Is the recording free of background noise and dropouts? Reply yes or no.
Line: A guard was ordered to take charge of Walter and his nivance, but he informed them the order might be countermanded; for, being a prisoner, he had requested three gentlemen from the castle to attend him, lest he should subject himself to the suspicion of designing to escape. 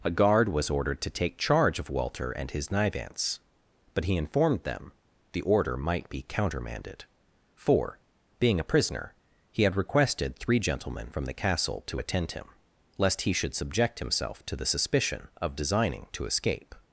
yes